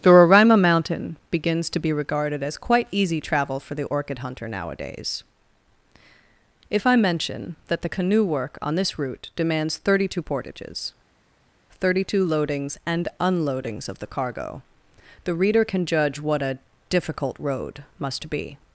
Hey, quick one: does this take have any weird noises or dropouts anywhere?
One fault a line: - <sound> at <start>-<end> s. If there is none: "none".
none